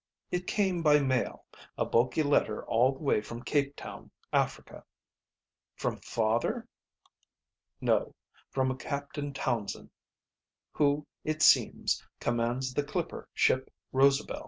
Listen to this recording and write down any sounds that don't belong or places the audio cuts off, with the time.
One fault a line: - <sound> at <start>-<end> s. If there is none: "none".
none